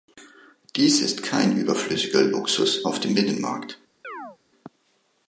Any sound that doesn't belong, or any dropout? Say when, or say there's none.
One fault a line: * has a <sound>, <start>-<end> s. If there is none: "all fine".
* has a chirp, 4.0-4.4 s